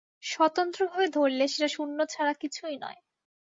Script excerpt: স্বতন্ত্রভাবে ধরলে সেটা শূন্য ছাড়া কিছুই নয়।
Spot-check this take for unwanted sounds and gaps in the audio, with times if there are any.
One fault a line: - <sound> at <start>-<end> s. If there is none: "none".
none